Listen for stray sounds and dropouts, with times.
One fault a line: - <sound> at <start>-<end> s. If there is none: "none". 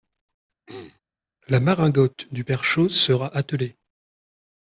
- throat clearing at 0.7-1.0 s